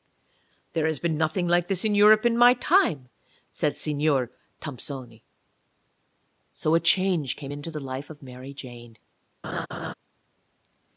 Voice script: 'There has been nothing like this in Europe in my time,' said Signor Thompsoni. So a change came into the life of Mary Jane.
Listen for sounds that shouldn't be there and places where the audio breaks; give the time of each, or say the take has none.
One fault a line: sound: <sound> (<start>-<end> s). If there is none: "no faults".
sound: laugh (9.4-9.9 s)